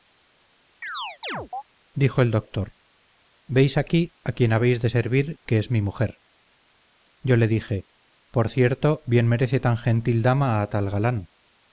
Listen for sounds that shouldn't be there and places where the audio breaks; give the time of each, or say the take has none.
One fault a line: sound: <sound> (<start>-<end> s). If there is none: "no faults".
sound: chirp (0.8-1.6 s)